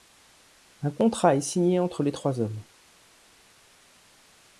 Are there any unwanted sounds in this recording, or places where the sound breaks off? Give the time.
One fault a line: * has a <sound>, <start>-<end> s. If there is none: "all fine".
all fine